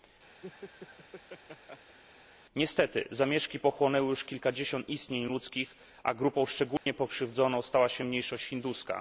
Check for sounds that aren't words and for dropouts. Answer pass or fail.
fail